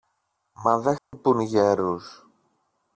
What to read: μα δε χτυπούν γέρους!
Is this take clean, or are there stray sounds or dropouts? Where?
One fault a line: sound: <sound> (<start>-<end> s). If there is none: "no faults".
sound: dropout (1.0-1.1 s)